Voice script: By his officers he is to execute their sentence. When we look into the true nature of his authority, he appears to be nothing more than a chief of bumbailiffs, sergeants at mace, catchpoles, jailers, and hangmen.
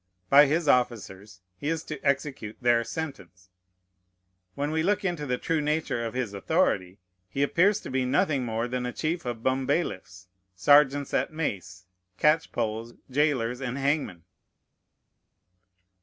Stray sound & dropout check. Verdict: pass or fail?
pass